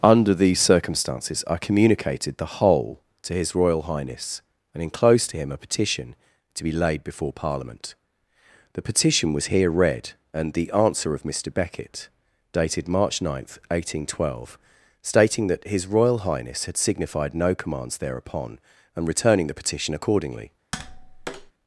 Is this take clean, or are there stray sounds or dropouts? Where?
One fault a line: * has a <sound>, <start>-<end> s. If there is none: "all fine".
* has a tap, 20.7-21.5 s